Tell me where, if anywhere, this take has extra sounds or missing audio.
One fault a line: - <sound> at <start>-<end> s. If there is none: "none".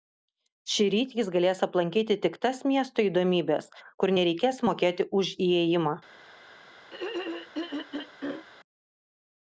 - throat clearing at 6.9-8.4 s